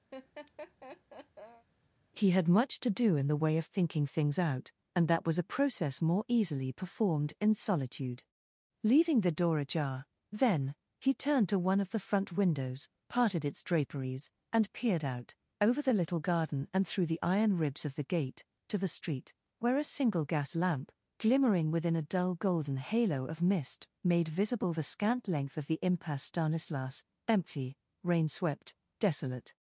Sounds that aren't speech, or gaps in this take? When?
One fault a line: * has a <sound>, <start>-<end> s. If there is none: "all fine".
* has a laugh, 0.1-1.7 s